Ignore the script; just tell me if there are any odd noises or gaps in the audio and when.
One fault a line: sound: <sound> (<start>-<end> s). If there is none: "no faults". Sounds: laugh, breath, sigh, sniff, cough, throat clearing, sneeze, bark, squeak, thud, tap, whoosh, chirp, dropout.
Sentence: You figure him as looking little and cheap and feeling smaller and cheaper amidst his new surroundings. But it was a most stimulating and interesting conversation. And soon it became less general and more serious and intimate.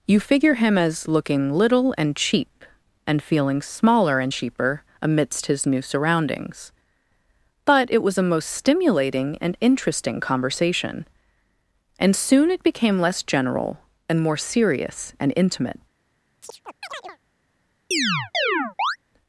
sound: chirp (16.4-17.2 s)
sound: chirp (17.9-19.0 s)